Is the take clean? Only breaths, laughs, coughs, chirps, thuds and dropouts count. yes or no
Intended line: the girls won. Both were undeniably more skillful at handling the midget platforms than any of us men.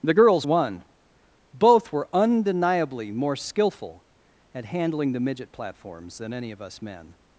yes